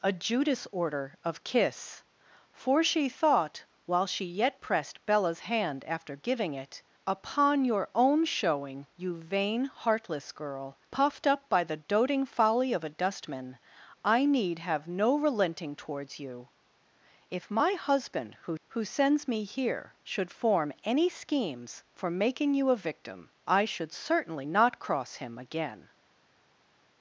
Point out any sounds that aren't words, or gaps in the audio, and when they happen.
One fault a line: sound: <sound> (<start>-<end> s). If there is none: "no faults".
no faults